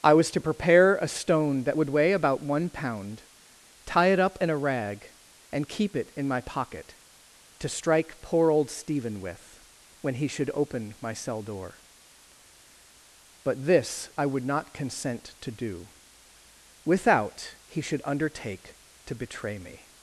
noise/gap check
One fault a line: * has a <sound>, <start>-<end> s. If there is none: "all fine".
all fine